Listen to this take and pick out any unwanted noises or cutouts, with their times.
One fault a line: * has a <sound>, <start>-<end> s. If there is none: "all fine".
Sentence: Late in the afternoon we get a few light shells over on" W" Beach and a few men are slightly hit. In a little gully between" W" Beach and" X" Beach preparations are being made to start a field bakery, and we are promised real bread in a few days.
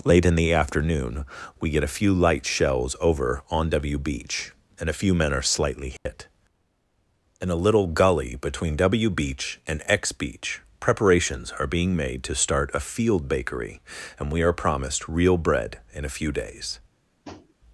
* has a dropout, 6.0-6.1 s
* has a tap, 17.2-17.5 s